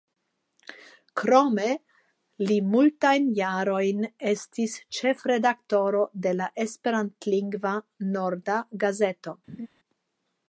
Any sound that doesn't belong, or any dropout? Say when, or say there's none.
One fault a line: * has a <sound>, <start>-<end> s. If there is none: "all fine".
* has a laugh, 9.5-9.7 s